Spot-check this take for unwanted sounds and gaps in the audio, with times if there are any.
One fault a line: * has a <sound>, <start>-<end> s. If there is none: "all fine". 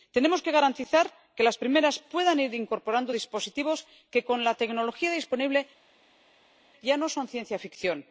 all fine